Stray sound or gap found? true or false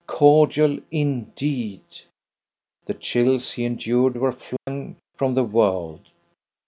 true